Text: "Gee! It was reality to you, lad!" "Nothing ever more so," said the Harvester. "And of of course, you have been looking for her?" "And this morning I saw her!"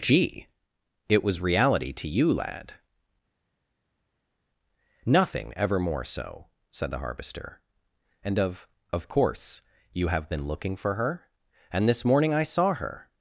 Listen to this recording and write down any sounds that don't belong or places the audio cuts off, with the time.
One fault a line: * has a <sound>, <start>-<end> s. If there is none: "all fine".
all fine